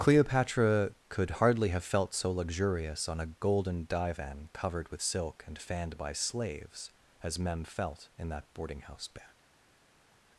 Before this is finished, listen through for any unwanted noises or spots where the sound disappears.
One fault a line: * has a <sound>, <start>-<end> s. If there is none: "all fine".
all fine